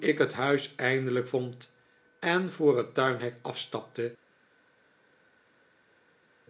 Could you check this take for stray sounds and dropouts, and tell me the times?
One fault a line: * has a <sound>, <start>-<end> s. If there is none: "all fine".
all fine